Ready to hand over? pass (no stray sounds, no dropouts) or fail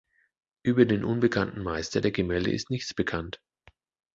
pass